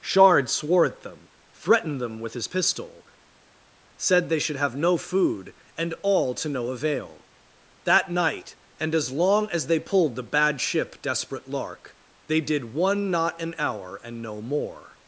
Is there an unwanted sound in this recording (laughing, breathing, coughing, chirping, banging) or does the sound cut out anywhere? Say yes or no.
no